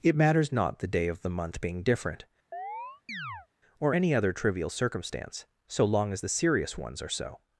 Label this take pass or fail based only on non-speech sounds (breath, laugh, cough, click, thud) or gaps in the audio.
fail